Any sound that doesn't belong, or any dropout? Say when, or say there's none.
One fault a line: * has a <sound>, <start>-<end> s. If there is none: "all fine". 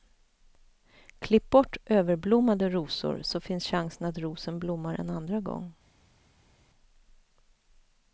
all fine